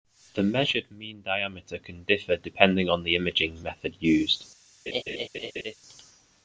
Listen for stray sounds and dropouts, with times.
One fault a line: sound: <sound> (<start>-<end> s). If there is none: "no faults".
sound: laugh (4.9-5.7 s)